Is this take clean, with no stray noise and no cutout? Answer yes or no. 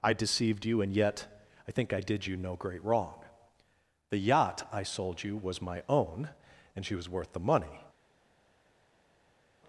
yes